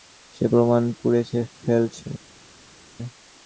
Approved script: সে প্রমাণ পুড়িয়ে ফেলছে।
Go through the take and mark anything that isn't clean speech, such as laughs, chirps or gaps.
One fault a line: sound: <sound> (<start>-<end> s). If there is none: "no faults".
no faults